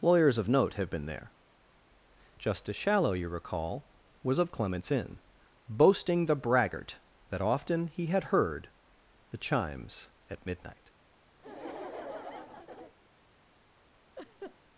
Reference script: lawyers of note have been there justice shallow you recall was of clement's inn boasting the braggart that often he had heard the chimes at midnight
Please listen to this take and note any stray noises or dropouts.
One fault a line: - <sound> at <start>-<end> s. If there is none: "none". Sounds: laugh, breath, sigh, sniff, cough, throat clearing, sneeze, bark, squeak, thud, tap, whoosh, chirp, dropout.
- laugh at 11.4-12.9 s
- laugh at 14.2-14.6 s